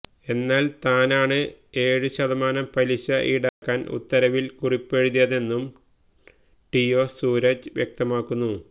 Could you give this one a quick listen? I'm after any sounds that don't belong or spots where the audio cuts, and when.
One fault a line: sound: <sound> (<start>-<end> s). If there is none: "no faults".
sound: dropout (3.5-3.6 s)